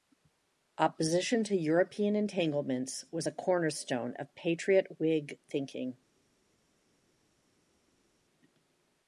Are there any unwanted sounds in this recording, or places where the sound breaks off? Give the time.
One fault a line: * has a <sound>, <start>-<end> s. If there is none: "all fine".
all fine